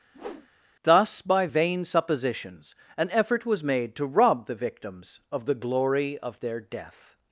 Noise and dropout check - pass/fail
fail